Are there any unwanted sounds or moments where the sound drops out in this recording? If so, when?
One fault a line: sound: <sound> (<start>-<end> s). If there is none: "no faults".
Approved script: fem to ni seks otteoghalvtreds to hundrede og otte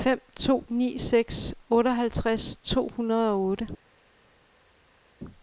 no faults